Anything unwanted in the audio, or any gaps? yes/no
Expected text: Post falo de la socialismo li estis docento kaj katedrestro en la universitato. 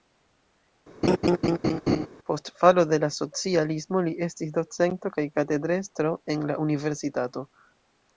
yes